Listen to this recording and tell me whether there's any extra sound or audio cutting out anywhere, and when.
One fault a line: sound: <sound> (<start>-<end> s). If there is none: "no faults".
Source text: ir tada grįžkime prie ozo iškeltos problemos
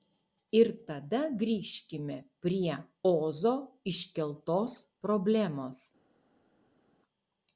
no faults